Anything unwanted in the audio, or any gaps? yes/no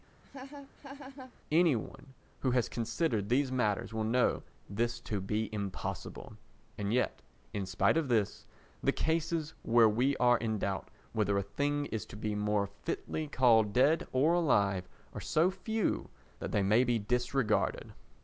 yes